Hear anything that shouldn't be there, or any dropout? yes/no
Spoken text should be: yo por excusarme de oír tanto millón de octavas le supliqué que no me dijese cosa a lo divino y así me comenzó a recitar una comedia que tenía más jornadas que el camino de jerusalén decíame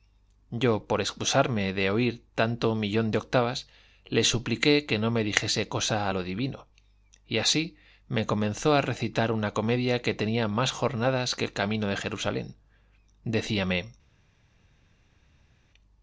no